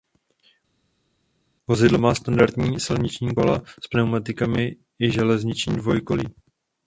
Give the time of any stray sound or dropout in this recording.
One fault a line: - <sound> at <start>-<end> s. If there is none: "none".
none